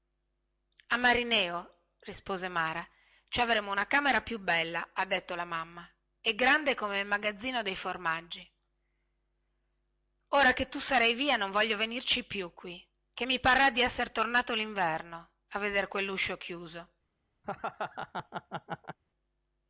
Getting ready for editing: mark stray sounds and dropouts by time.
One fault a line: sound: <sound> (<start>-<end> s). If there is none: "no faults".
sound: laugh (17.4-19.0 s)